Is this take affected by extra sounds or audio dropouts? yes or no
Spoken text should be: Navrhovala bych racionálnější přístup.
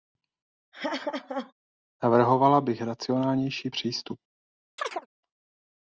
yes